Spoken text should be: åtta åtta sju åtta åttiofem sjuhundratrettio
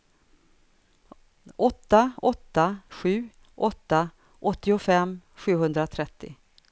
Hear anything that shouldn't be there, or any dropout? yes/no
no